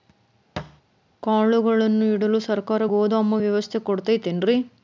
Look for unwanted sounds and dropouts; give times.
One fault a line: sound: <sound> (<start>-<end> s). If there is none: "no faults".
sound: thud (0.6-0.8 s)